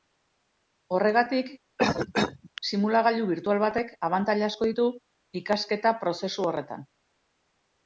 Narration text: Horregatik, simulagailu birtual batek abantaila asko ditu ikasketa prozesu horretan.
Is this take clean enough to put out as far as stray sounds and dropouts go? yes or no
no